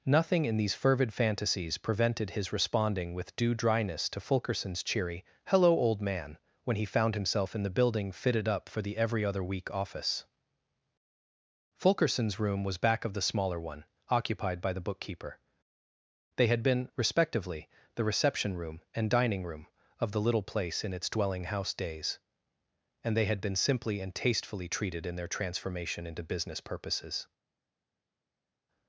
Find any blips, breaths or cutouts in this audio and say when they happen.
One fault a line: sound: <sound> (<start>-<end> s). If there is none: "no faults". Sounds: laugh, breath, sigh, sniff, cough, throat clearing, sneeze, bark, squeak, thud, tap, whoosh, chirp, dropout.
no faults